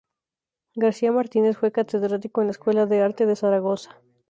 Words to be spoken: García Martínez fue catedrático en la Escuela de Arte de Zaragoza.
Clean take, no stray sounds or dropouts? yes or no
yes